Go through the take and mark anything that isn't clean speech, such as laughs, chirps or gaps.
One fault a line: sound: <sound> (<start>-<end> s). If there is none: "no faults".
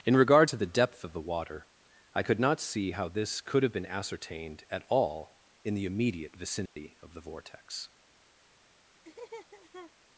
sound: dropout (6.7-6.8 s)
sound: laugh (9.0-9.9 s)